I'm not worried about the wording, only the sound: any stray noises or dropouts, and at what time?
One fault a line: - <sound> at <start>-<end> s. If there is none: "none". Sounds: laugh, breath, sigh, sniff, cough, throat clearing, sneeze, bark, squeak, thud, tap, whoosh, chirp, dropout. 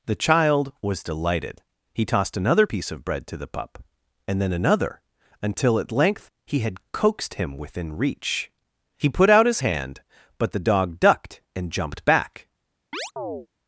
- chirp at 12.9-13.5 s